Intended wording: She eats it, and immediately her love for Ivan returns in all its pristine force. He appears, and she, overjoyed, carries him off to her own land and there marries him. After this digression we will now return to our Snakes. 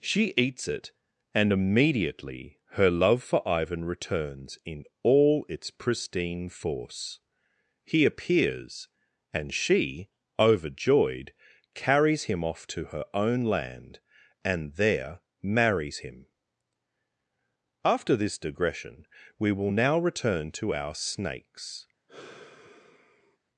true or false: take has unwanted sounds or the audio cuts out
true